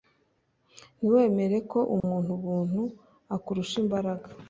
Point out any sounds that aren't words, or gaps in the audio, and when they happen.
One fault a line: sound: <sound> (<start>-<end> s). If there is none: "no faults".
sound: dropout (2.0-2.0 s)